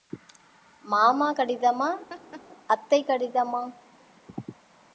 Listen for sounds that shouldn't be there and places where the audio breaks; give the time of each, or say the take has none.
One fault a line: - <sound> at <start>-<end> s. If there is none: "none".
- laugh at 2.1-2.4 s